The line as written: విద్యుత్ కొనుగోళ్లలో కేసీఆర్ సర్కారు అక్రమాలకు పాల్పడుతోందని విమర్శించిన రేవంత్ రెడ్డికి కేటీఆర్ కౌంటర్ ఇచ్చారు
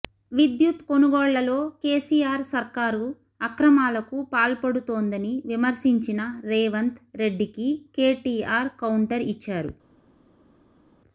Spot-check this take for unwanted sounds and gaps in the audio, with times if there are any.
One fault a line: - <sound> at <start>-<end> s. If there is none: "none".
none